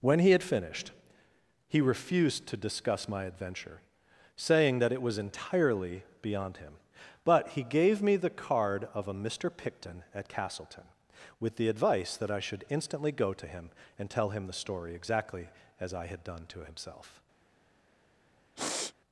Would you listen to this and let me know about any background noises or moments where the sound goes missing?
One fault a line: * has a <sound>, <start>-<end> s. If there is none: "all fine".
* has a sniff, 18.6-18.9 s